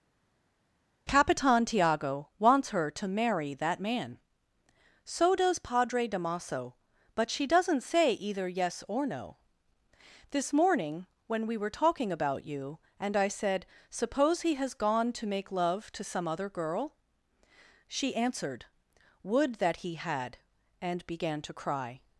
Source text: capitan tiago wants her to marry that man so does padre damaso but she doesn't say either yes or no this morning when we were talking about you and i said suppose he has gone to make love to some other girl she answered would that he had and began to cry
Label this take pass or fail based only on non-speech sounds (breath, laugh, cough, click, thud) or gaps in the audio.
pass